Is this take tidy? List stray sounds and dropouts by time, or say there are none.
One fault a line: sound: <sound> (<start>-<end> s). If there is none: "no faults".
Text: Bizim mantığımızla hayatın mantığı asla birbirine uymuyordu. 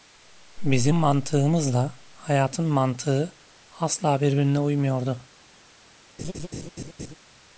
sound: laugh (6.2-7.2 s)